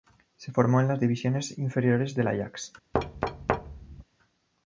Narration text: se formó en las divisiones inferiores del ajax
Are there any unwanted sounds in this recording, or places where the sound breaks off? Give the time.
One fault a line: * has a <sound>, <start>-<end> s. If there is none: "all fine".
* has a thud, 2.9-4.0 s